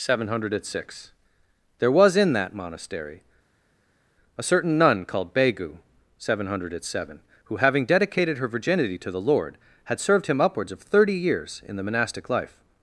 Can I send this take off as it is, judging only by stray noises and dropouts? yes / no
yes